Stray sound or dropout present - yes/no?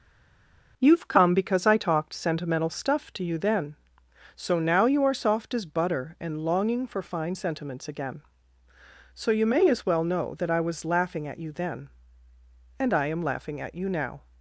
no